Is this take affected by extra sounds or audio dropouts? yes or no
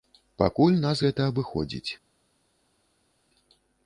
no